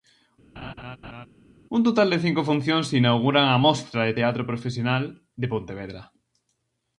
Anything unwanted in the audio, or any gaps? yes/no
yes